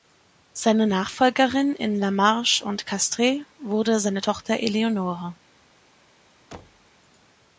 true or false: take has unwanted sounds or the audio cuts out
true